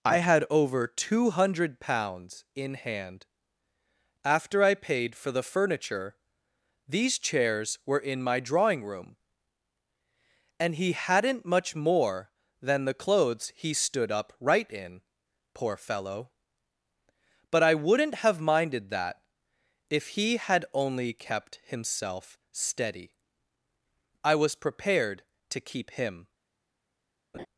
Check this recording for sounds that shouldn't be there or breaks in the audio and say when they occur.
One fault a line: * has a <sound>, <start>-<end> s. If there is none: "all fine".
* has a laugh, 27.3-27.5 s